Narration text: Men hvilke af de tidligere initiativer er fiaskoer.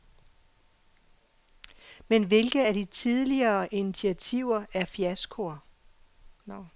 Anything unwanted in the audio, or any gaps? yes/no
no